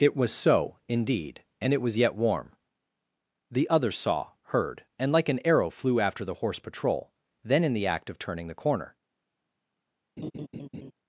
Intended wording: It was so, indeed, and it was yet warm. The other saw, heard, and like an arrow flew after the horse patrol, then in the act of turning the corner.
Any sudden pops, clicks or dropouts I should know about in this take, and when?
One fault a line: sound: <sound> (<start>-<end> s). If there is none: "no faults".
sound: laugh (10.2-10.9 s)